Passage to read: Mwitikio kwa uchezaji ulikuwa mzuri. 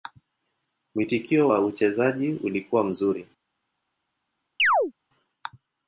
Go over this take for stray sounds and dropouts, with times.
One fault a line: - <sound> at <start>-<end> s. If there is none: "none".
- chirp at 4.6-4.9 s